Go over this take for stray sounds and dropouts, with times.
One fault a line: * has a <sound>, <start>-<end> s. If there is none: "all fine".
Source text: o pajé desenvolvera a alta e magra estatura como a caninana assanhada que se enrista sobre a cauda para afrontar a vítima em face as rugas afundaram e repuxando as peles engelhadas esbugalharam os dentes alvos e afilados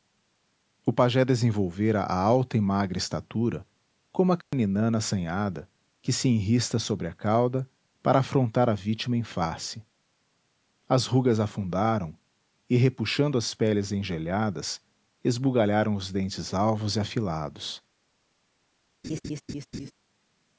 * has a dropout, 4.4-4.5 s
* has a laugh, 19.0-19.9 s